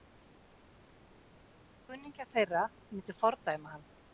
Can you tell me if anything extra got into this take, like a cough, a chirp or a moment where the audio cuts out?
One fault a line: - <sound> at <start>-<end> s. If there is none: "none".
none